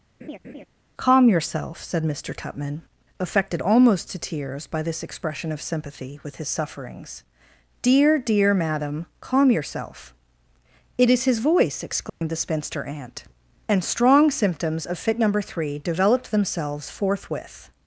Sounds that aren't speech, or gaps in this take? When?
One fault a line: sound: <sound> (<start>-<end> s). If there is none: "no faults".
sound: laugh (0.2-0.7 s)
sound: dropout (12.1-12.2 s)